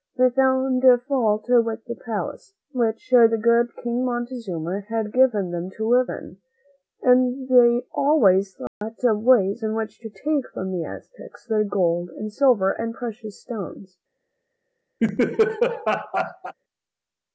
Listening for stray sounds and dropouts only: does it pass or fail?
fail